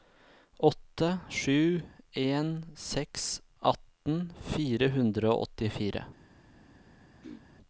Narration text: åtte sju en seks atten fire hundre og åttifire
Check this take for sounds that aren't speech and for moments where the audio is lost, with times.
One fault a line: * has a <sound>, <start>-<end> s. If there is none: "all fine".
* has a throat clearing, 7.2-7.4 s